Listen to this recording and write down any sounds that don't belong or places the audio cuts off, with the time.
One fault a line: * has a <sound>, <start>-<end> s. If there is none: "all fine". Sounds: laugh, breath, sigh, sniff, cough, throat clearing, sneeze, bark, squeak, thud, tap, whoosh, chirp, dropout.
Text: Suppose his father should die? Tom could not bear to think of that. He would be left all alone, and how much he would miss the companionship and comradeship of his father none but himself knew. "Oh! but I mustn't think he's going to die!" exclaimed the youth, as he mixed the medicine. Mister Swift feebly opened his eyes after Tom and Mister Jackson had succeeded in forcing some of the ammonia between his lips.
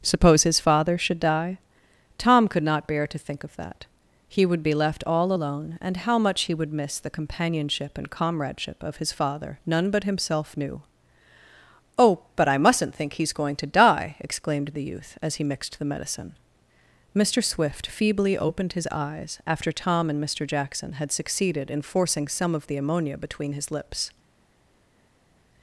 all fine